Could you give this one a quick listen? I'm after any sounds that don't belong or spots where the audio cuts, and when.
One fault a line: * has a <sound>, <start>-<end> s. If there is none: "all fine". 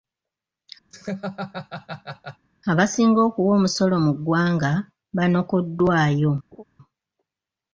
* has a laugh, 0.9-2.4 s
* has a laugh, 6.5-6.6 s